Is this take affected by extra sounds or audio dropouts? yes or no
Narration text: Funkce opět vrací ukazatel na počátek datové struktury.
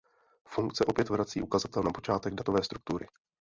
no